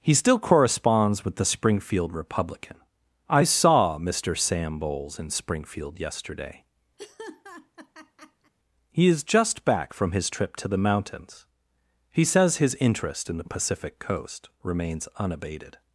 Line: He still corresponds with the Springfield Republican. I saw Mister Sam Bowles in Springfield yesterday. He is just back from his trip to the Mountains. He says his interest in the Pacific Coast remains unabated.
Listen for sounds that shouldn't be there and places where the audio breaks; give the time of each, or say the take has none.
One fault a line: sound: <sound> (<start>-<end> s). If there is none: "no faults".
sound: laugh (7.0-8.5 s)